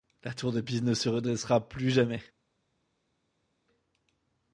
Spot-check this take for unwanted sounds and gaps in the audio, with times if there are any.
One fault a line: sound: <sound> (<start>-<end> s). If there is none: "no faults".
no faults